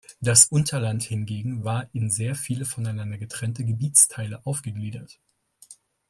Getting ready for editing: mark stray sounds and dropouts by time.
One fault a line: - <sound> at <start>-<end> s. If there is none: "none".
none